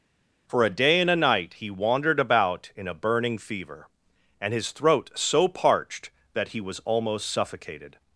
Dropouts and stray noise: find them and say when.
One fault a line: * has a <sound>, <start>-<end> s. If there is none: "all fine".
all fine